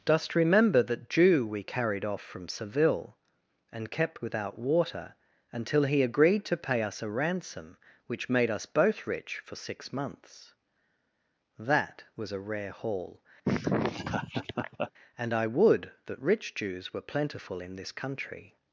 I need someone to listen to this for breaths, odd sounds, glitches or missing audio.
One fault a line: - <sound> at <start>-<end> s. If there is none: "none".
- laugh at 13.4-14.9 s